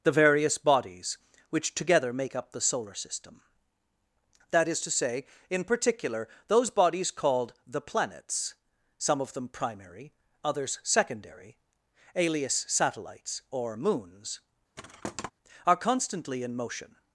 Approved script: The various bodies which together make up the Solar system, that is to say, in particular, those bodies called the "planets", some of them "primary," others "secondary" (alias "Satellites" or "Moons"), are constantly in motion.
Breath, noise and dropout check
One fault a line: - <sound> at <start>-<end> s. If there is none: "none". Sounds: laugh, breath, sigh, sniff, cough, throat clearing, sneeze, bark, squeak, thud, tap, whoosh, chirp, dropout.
- thud at 14.8-15.3 s